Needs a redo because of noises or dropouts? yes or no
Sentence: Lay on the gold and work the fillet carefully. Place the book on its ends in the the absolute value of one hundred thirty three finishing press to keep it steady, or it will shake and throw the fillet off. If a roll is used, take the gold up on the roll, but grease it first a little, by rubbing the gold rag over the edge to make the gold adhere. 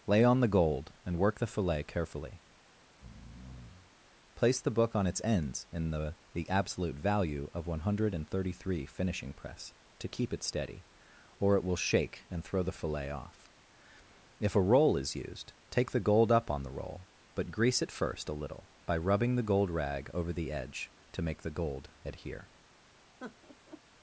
yes